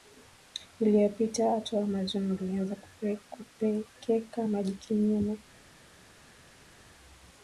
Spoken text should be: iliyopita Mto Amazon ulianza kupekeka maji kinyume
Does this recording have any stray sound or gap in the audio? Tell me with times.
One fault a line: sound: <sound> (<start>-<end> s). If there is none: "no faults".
no faults